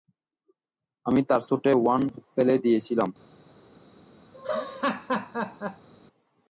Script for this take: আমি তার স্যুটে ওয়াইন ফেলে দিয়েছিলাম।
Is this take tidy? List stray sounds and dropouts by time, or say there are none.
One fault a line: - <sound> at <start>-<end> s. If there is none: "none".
- laugh at 4.3-5.9 s